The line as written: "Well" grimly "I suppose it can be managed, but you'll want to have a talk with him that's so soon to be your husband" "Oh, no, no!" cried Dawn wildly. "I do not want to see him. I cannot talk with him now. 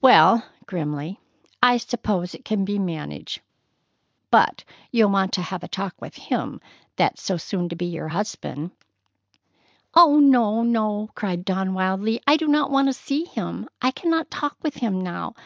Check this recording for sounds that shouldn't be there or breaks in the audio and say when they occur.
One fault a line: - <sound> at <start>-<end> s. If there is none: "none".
none